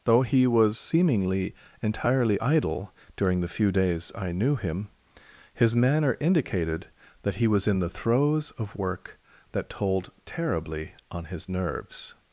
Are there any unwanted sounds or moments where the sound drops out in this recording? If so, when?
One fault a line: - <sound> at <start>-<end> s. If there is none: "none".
none